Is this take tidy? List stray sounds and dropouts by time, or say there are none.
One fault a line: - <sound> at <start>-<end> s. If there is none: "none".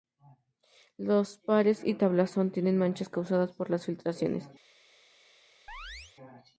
- chirp at 5.7-6.1 s